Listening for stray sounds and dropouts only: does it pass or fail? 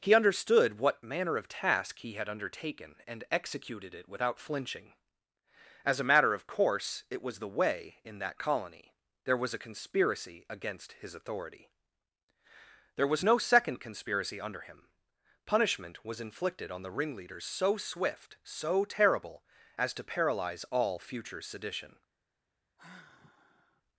fail